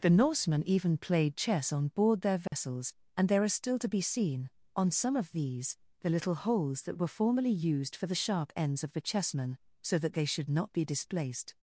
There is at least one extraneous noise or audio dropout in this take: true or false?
true